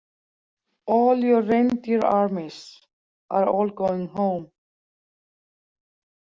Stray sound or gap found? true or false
false